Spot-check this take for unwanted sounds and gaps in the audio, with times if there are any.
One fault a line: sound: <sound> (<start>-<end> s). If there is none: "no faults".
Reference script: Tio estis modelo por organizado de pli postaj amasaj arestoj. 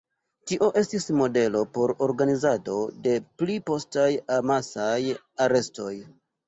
no faults